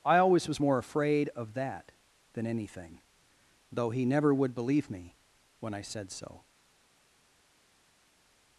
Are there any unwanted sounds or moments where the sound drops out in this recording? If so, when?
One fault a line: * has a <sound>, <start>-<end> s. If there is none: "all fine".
all fine